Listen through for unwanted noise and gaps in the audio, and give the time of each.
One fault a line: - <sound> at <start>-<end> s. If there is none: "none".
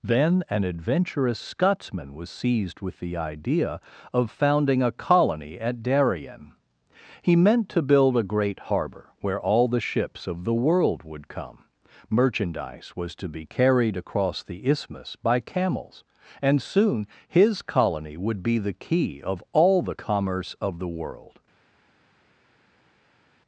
none